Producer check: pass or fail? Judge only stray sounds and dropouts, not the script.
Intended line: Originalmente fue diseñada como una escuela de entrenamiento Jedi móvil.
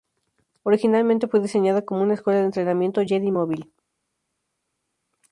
pass